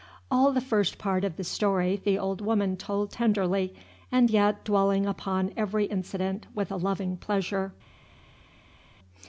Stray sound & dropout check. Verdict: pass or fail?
pass